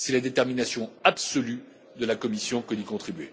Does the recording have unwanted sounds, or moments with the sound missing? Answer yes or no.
no